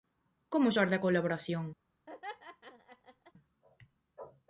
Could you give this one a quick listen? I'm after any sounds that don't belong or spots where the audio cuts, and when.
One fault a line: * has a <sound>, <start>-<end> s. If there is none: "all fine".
* has a laugh, 2.1-3.3 s